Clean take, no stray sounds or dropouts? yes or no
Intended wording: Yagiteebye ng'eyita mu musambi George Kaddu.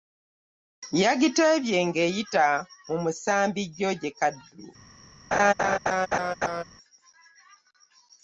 no